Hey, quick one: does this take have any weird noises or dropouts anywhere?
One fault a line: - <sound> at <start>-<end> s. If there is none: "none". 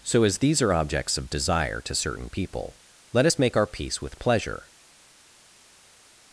none